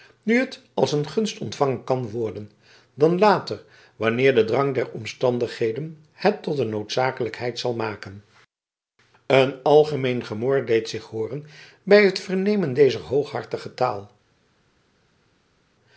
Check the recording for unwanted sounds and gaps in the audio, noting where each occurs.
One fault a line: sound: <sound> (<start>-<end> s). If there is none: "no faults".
no faults